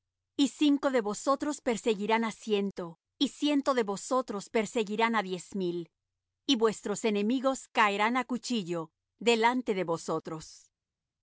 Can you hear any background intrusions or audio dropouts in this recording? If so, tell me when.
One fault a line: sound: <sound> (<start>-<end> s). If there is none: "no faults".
no faults